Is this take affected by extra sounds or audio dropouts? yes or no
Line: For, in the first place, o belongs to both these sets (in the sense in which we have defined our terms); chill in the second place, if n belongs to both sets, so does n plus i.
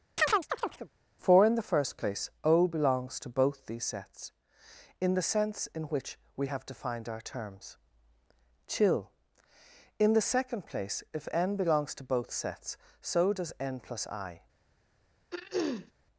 yes